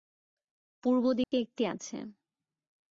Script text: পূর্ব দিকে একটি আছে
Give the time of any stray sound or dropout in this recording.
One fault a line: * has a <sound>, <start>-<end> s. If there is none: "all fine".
* has a dropout, 1.2-1.3 s